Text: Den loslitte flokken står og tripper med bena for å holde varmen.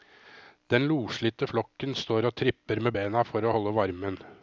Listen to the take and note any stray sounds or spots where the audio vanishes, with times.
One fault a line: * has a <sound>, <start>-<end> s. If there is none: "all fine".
all fine